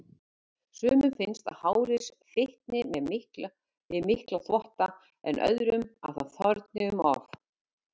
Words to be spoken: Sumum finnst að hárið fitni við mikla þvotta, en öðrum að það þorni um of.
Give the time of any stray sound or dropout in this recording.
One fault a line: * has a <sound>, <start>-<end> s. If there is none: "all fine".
all fine